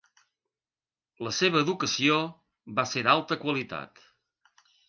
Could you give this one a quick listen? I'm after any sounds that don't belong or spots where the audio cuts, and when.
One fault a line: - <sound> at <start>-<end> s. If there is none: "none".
none